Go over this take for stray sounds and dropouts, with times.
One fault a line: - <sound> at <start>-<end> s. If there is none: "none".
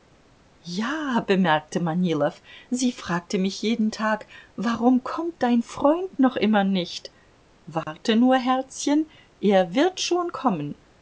- dropout at 7.8-7.9 s